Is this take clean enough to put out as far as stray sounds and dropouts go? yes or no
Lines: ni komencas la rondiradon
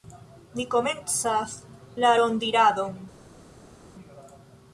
yes